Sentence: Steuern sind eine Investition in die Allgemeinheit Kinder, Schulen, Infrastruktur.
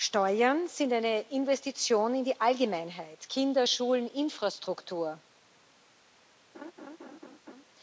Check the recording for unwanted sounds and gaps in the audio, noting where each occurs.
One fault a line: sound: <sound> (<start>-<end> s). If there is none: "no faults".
sound: laugh (6.5-7.6 s)